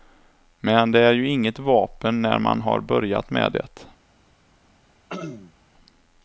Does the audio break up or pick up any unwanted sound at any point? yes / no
yes